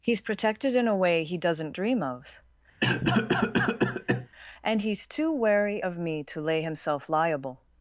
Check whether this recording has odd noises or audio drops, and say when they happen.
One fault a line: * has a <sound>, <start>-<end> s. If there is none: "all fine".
* has a cough, 2.8-4.3 s